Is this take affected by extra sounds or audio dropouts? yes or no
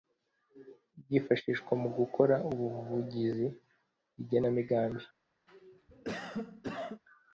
yes